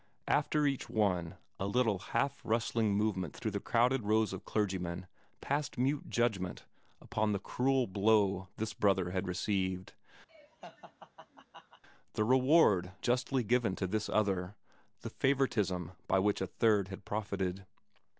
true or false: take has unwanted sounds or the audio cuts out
true